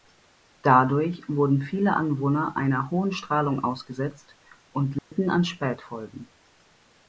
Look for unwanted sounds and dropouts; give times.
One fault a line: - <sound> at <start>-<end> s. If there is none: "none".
- dropout at 5.0-5.1 s